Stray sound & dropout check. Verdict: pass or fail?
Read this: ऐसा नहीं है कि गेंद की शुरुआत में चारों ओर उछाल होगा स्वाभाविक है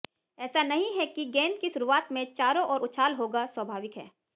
pass